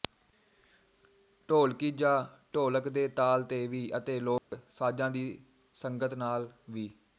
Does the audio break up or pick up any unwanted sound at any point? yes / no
yes